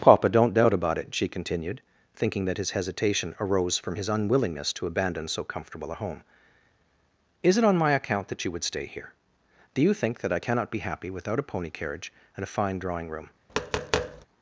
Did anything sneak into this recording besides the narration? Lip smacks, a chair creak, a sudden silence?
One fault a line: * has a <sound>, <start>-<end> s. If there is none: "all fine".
* has a tap, 13.5-14.3 s